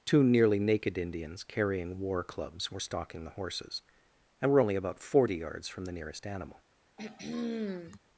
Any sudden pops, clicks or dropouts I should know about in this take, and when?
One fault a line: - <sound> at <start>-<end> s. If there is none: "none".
- throat clearing at 7.0-8.0 s